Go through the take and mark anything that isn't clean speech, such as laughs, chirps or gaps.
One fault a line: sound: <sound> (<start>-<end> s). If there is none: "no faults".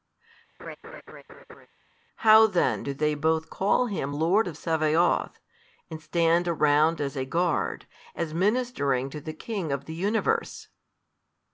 sound: laugh (0.6-1.7 s)